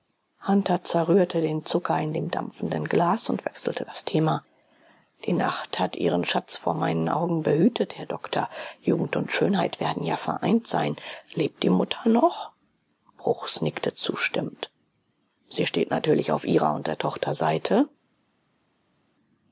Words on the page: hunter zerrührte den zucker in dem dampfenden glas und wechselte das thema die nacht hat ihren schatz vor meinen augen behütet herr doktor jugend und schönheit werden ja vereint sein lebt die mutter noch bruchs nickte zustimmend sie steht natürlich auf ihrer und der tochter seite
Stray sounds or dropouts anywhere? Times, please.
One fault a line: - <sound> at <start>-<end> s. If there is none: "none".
none